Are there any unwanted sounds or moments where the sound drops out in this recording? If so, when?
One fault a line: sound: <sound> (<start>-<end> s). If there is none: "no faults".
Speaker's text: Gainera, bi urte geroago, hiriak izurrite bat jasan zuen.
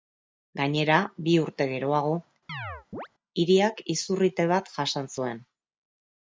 sound: chirp (2.5-3.1 s)